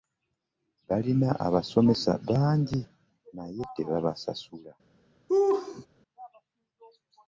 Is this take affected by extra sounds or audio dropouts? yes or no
yes